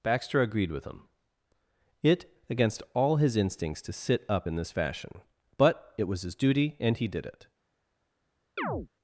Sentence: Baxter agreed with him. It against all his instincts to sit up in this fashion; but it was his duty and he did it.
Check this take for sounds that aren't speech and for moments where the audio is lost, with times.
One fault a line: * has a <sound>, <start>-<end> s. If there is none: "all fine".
* has a chirp, 8.6-8.9 s